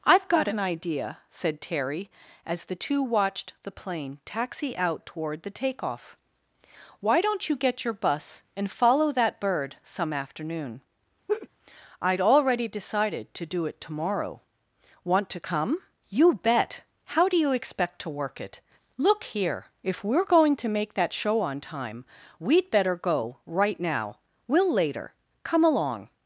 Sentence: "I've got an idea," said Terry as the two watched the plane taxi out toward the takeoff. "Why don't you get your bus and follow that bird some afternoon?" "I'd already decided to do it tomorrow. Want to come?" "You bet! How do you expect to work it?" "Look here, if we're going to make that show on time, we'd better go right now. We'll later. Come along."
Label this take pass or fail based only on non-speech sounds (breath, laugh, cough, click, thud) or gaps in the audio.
fail